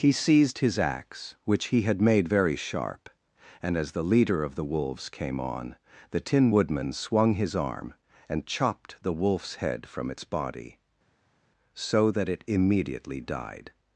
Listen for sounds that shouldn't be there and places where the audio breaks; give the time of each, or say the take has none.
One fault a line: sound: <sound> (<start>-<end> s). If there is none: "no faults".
no faults